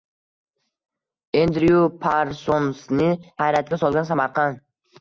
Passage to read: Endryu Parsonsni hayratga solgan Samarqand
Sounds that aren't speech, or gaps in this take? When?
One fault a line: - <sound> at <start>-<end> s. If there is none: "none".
none